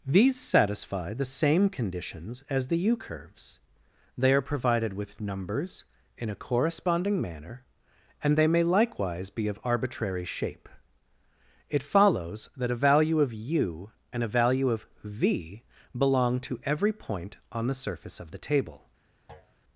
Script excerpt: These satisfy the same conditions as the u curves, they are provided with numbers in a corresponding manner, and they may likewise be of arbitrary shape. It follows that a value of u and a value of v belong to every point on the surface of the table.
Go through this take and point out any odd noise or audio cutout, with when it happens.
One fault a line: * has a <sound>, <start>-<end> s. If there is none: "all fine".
* has a thud, 19.3-19.6 s